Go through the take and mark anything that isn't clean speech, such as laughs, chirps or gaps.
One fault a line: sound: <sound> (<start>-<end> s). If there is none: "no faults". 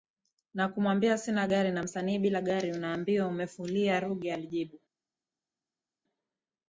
no faults